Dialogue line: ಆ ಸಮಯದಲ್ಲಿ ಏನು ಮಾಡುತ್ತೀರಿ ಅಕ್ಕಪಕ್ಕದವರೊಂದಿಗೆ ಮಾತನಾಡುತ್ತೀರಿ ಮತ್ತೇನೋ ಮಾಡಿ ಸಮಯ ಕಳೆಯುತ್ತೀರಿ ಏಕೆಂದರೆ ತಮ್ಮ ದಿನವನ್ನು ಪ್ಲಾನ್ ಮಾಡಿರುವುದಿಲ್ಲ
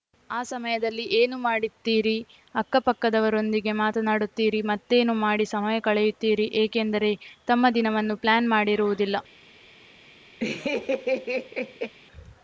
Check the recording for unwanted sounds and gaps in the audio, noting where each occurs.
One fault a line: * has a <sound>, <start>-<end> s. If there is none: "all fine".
* has a laugh, 10.4-11.9 s